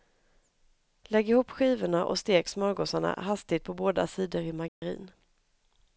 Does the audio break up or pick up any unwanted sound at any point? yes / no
yes